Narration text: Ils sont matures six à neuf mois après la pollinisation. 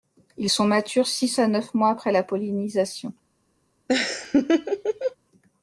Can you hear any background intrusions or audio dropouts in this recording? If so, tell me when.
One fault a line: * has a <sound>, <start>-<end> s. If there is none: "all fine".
* has a laugh, 3.9-5.2 s